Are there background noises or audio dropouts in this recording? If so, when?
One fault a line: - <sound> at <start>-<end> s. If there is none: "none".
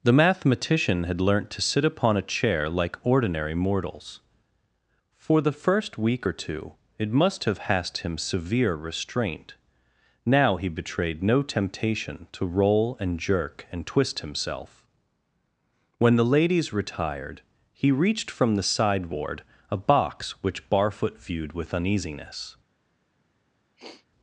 - sniff at 23.8-24.1 s